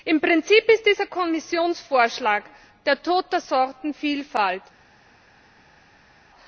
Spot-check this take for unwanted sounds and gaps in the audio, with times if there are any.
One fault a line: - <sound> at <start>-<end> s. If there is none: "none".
none